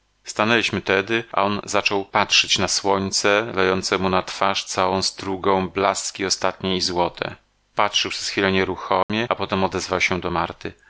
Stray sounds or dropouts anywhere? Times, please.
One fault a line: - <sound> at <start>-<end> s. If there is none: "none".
- dropout at 9.0-9.1 s